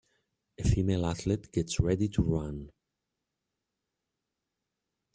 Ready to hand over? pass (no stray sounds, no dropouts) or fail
pass